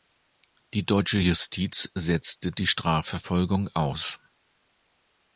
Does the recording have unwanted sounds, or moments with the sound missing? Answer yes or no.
no